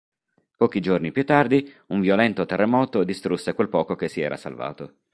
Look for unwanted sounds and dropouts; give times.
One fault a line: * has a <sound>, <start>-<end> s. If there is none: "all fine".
all fine